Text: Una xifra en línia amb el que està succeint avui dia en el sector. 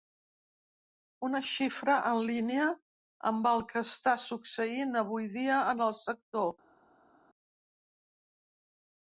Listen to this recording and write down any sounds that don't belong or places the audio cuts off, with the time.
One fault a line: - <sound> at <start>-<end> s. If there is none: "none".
none